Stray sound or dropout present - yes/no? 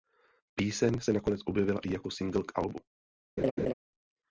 yes